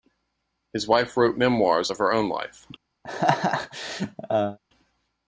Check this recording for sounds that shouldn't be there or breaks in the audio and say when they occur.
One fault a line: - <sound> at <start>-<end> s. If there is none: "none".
- laugh at 3.0-4.6 s